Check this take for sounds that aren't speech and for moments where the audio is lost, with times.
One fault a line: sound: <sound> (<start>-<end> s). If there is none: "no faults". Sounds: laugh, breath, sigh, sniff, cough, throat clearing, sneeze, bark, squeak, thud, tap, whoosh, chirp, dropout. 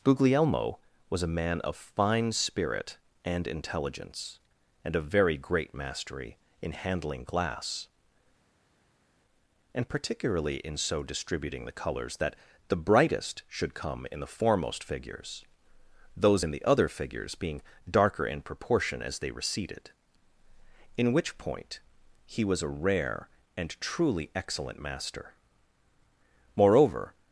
no faults